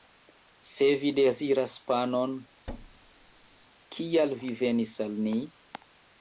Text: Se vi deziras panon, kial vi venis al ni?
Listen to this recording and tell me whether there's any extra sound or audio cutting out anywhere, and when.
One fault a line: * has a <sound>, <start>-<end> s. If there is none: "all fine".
* has a thud, 2.7-3.7 s